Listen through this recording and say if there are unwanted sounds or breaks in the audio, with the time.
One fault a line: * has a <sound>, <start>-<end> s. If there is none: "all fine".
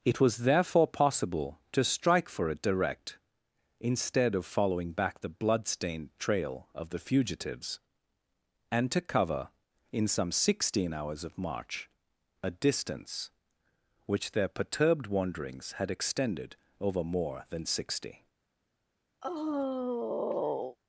* has a sigh, 19.2-20.8 s